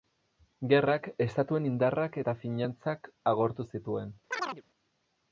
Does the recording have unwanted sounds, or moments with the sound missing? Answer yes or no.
yes